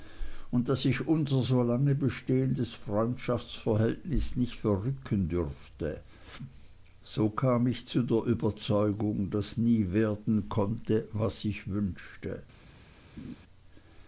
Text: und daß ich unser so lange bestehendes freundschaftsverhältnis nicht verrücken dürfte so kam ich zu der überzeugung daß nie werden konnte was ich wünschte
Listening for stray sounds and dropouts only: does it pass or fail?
fail